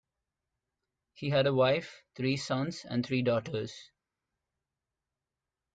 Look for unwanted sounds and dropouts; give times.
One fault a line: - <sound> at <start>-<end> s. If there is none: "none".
none